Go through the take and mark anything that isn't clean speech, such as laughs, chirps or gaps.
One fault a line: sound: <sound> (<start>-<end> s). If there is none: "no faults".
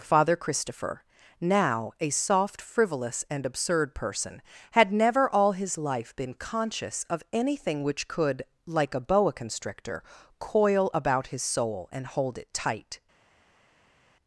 no faults